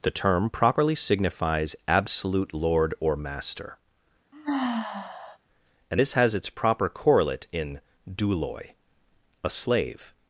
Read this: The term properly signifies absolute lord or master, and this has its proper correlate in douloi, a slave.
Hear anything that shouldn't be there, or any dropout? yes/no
yes